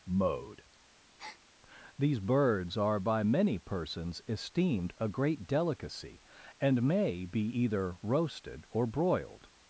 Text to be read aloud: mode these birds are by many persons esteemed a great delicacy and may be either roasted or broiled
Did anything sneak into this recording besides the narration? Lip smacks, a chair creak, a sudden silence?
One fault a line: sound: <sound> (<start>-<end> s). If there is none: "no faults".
sound: breath (1.2-1.4 s)